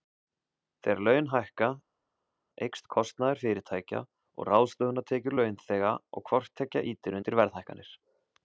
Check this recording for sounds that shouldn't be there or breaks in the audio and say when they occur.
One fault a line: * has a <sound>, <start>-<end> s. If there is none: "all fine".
all fine